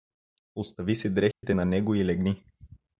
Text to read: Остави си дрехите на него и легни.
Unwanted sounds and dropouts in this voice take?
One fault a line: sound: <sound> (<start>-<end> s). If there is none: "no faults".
sound: dropout (1.3-1.4 s)